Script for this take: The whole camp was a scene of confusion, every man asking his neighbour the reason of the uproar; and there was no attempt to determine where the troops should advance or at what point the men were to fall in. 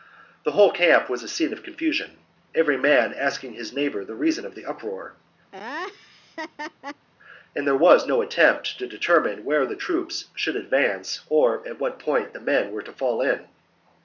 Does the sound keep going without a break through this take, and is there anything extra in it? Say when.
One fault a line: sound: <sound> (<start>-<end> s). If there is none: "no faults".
sound: laugh (5.5-7.1 s)